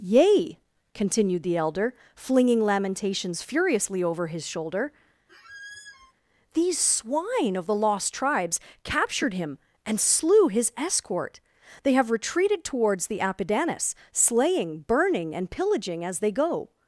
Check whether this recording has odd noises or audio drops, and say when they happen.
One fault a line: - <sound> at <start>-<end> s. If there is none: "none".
- squeak at 5.3-6.1 s